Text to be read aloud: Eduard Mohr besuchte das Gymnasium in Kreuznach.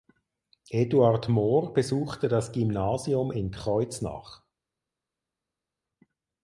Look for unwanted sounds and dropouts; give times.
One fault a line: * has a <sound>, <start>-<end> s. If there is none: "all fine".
all fine